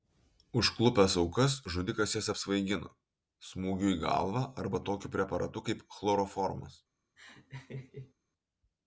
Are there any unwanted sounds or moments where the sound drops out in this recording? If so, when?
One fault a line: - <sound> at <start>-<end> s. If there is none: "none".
- laugh at 7.2-8.1 s